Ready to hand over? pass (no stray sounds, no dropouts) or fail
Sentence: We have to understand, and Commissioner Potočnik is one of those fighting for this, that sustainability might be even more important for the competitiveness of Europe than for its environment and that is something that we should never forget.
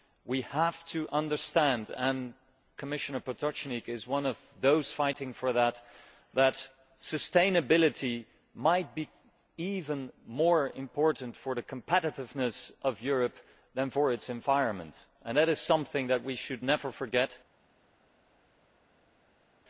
pass